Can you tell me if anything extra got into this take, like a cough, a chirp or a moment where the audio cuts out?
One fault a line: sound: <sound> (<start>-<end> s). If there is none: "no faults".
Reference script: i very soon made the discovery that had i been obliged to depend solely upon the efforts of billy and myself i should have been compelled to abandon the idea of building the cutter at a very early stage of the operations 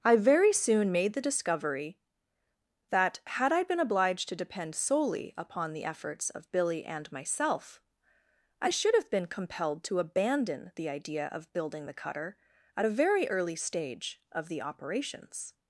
no faults